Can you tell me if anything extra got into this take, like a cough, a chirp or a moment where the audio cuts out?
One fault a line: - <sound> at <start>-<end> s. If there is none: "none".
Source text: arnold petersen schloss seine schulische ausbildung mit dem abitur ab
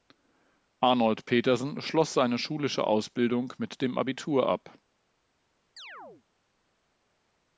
- chirp at 5.8-6.2 s